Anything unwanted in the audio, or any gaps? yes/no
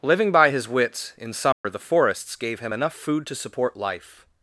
yes